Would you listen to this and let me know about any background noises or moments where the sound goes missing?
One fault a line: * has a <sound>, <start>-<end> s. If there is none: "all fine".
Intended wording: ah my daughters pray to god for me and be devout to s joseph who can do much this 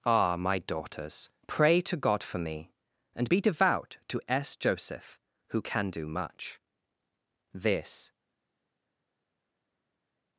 all fine